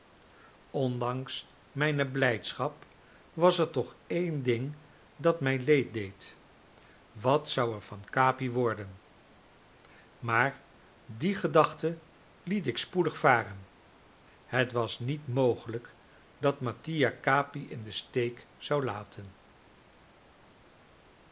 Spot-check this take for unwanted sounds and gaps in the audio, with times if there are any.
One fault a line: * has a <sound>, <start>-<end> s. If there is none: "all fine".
all fine